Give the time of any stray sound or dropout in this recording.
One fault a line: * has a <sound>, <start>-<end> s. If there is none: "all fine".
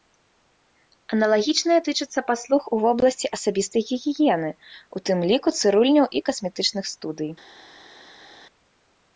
all fine